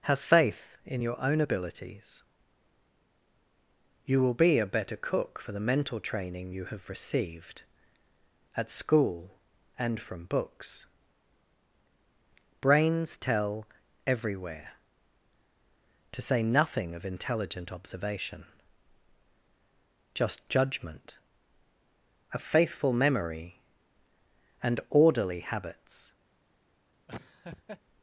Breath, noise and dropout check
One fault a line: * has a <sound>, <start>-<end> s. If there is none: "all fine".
* has a laugh, 27.1-27.8 s